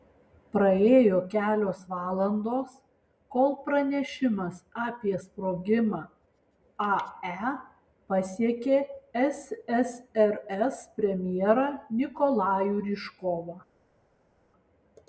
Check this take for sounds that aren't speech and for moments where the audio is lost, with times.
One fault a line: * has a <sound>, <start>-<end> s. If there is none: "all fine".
all fine